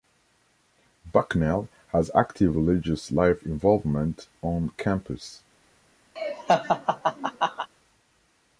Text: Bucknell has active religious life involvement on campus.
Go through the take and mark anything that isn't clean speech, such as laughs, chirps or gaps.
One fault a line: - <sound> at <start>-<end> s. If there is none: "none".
- laugh at 6.2-7.7 s